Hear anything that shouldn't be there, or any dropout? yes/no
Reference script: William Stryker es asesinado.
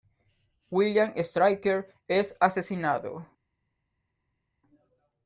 no